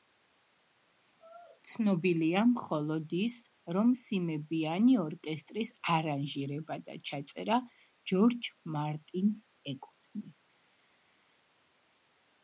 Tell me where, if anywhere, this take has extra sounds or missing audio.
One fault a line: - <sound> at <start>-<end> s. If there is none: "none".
none